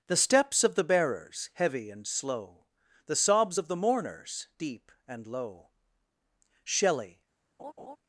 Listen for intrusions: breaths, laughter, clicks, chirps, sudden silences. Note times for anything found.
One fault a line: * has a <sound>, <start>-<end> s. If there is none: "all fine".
* has a laugh, 7.6-8.0 s